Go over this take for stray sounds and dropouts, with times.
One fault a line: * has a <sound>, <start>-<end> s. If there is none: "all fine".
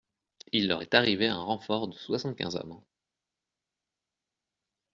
all fine